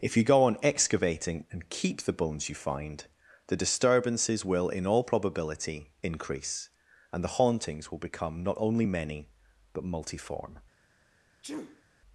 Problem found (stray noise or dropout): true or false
true